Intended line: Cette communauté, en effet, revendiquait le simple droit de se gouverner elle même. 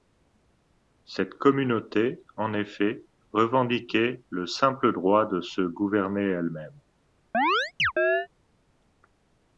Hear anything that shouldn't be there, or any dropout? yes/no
yes